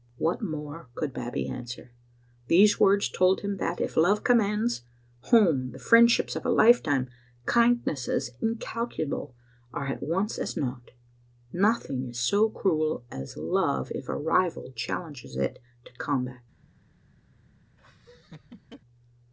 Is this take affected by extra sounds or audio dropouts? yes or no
yes